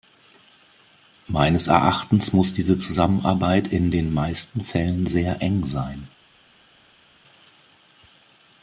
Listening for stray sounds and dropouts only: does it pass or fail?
pass